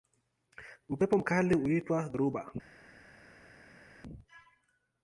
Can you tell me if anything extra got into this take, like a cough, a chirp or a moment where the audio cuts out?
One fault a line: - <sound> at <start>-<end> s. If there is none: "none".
none